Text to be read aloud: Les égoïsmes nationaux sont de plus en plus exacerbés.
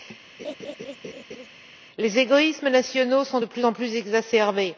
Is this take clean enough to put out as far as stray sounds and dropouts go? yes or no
no